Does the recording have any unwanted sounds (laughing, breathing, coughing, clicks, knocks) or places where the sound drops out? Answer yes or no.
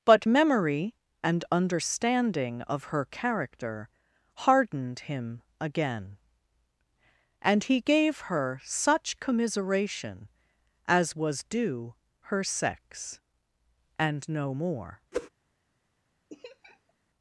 yes